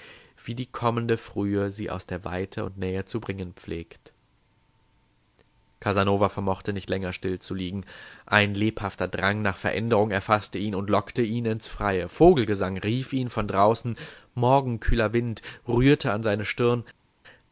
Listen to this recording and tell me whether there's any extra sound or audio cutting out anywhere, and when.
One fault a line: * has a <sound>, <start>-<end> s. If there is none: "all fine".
all fine